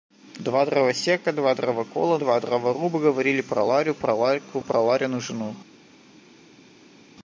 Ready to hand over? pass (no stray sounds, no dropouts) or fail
pass